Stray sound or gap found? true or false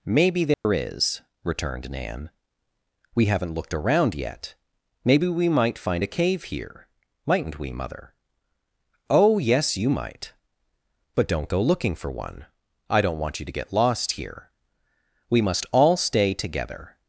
true